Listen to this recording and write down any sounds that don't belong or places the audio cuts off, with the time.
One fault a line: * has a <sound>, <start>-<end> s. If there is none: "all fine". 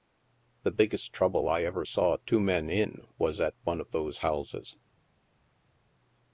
all fine